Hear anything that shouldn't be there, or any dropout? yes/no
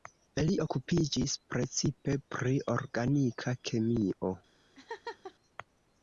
yes